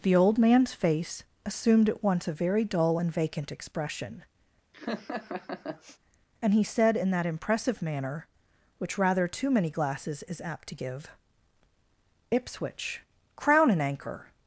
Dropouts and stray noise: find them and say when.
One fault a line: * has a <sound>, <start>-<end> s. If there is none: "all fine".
* has a laugh, 4.7-6.0 s